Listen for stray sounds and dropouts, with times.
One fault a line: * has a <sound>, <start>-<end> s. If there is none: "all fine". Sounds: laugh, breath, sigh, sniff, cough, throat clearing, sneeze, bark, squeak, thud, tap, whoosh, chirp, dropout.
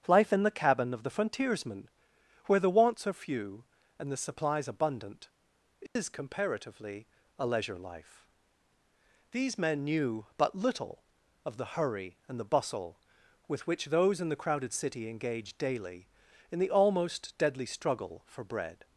* has a dropout, 5.9-6.0 s